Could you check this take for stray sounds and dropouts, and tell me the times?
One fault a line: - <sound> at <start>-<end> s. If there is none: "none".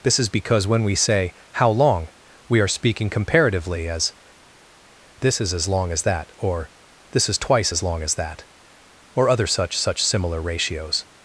none